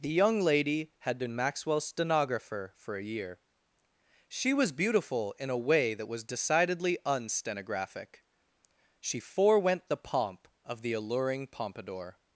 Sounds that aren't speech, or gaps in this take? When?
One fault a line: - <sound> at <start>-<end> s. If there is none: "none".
none